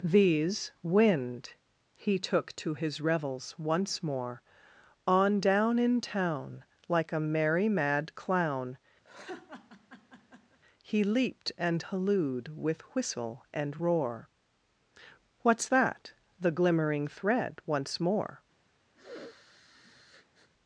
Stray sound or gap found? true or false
true